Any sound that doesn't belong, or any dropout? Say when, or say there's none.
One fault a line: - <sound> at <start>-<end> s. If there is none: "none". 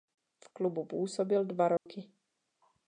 - dropout at 1.8-1.9 s